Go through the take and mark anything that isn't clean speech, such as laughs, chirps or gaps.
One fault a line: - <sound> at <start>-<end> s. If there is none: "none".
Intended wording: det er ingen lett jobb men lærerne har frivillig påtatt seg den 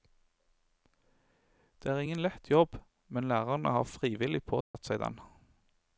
- dropout at 4.6-4.7 s